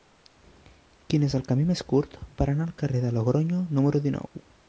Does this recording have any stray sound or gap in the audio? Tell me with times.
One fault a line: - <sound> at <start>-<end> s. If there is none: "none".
- dropout at 4.3-4.4 s